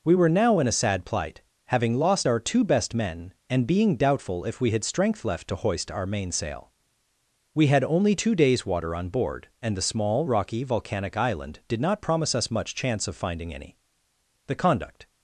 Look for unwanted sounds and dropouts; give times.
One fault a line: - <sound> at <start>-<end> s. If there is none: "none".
none